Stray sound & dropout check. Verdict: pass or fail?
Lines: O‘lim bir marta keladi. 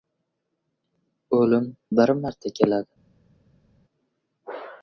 pass